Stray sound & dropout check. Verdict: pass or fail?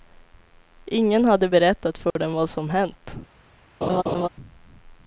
fail